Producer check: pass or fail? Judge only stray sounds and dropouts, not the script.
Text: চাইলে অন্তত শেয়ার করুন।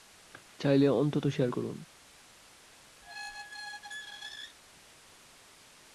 fail